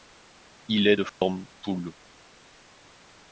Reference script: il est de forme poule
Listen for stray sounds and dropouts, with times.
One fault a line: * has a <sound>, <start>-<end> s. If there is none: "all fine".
* has a dropout, 1.1-1.2 s